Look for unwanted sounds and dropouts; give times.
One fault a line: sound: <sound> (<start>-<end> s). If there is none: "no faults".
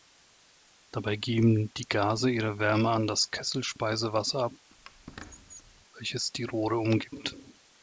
sound: squeak (4.7-5.9 s)